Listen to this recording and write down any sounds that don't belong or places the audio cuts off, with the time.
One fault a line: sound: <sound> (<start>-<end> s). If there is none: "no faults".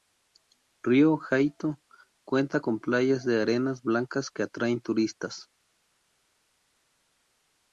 no faults